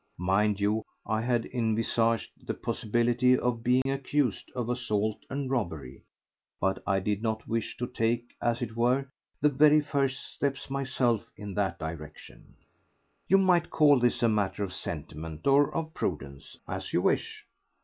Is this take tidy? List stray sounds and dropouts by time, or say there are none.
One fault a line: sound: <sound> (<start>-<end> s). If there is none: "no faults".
sound: dropout (3.8-3.9 s)